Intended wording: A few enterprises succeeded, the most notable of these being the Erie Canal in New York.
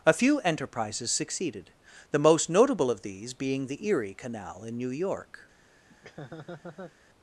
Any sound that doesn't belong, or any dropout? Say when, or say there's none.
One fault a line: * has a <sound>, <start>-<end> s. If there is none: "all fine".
* has a laugh, 5.9-7.0 s